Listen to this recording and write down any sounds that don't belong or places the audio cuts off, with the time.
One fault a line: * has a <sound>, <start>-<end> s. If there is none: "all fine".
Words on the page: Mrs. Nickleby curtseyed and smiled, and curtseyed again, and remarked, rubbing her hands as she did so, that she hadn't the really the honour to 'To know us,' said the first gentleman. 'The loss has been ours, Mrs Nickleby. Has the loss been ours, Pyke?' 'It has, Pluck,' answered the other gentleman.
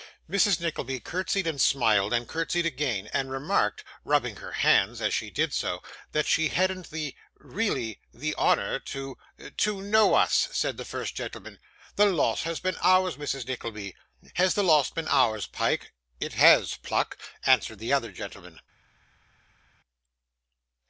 all fine